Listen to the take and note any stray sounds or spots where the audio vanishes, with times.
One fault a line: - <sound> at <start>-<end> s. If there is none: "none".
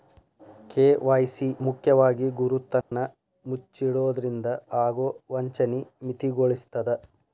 - dropout at 2.8-2.9 s